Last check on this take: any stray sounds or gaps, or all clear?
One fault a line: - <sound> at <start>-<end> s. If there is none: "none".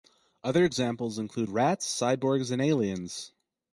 none